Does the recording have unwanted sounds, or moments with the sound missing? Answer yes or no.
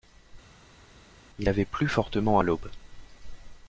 no